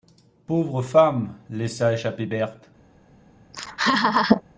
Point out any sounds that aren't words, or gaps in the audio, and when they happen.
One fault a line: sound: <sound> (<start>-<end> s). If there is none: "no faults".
sound: laugh (3.5-4.4 s)